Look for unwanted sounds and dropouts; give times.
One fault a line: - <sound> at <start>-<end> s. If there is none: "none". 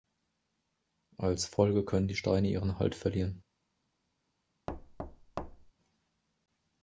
- thud at 4.7-5.7 s